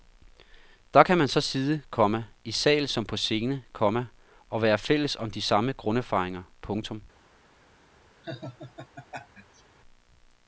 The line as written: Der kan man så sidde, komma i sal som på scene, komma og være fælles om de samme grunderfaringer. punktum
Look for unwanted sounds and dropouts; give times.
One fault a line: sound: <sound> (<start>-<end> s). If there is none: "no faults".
sound: laugh (8.2-9.6 s)